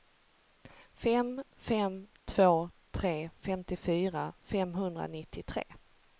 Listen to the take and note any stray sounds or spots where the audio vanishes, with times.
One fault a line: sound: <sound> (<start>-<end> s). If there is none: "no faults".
no faults